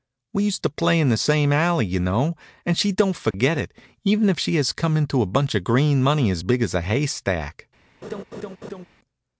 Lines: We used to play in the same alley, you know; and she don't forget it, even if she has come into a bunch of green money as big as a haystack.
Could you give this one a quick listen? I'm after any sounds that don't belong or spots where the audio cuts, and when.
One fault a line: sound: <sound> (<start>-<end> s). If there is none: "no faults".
sound: dropout (3.3-3.3 s)
sound: laugh (8.0-8.9 s)